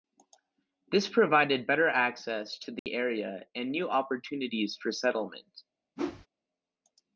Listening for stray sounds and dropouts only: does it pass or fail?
fail